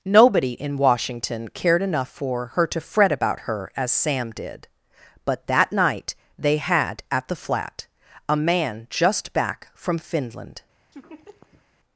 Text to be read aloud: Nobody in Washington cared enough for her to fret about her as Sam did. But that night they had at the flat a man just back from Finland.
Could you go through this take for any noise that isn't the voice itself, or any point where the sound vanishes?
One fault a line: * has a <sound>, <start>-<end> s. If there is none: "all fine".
* has a laugh, 10.9-11.6 s